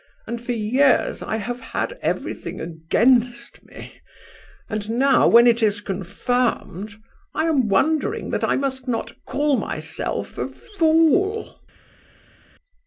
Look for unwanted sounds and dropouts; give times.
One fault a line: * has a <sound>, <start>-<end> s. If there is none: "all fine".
all fine